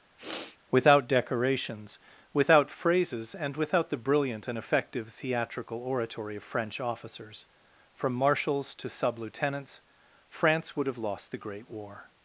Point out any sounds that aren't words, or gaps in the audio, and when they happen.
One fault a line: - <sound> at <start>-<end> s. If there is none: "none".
- sniff at 0.2-0.6 s